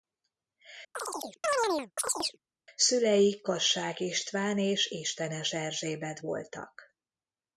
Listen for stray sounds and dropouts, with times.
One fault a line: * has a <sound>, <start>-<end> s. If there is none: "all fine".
* has a chirp, 0.9-2.4 s